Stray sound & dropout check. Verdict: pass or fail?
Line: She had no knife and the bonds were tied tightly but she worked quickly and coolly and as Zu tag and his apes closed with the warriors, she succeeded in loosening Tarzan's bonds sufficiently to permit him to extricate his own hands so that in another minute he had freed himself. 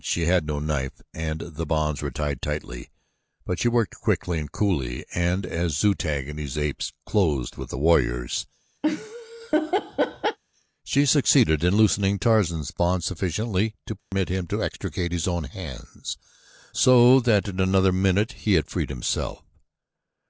fail